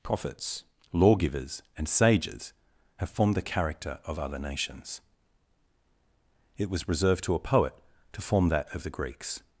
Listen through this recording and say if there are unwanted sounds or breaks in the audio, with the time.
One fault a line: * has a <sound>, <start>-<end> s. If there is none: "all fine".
all fine